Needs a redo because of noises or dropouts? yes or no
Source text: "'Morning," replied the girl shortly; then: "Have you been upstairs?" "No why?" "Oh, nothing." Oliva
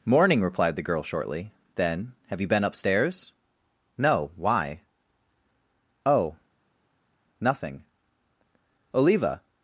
no